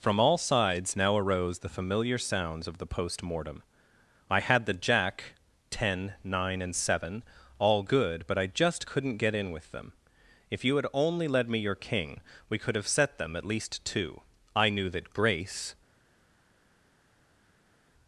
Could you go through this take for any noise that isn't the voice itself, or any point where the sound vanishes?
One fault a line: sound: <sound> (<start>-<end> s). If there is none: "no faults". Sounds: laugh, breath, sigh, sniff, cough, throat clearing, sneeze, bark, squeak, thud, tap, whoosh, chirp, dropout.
no faults